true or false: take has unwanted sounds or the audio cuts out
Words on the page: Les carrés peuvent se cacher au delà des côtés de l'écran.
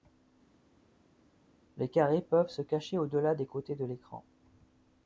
false